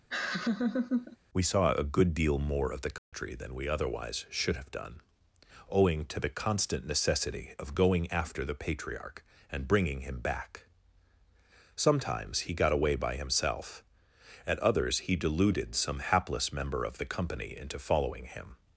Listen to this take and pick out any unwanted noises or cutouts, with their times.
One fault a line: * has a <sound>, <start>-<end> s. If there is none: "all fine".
* has a laugh, 0.1-1.2 s
* has a dropout, 3.0-3.1 s